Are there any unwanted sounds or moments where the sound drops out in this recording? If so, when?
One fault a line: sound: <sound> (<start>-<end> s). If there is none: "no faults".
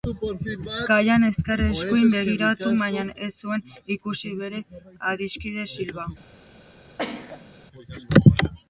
sound: sneeze (7.0-7.5 s)